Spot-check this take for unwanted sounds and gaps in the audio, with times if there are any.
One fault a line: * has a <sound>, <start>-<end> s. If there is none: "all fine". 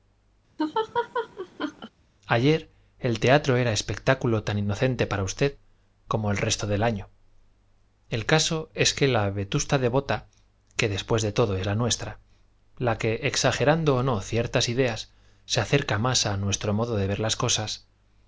* has a laugh, 0.6-1.9 s